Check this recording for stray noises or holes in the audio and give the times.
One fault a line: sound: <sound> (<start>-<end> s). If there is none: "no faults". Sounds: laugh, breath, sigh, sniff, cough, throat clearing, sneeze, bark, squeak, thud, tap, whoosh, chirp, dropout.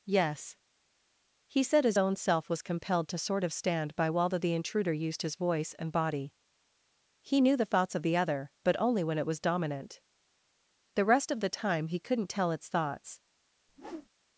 sound: whoosh (13.7-14.1 s)